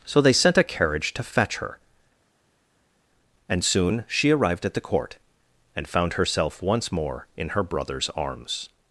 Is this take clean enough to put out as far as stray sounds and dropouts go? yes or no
yes